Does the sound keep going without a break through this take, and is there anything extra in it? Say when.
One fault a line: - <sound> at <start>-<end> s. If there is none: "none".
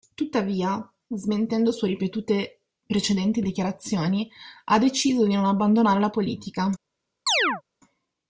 - chirp at 7.3-7.6 s